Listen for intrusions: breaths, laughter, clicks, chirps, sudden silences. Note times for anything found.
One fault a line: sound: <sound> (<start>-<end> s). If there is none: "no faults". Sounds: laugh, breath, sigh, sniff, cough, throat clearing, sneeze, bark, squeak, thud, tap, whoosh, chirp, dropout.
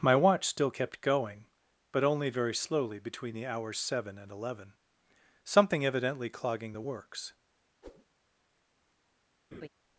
sound: whoosh (7.8-8.1 s)
sound: laugh (9.5-9.7 s)